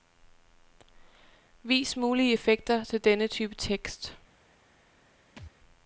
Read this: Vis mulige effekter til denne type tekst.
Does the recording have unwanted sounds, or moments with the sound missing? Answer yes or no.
yes